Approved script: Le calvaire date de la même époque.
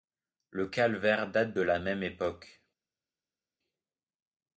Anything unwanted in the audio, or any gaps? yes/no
no